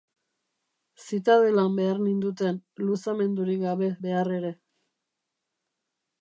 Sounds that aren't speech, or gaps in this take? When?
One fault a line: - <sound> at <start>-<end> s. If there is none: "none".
none